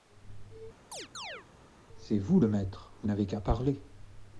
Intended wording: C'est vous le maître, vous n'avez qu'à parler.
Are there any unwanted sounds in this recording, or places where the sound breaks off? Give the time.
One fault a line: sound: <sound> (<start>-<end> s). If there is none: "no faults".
sound: chirp (0.9-1.5 s)